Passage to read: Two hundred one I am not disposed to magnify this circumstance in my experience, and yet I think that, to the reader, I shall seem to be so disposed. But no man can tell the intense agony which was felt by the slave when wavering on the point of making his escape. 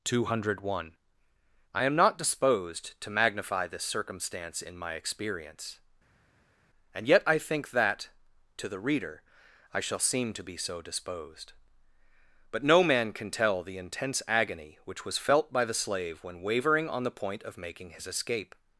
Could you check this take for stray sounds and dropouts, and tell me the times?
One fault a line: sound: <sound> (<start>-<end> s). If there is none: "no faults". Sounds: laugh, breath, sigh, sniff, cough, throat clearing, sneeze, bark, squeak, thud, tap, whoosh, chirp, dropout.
no faults